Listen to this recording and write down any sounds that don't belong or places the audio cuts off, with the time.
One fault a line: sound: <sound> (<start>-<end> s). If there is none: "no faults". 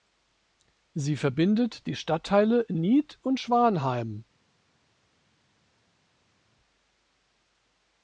no faults